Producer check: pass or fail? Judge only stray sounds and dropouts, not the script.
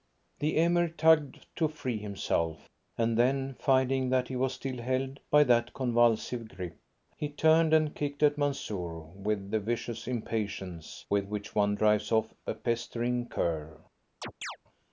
fail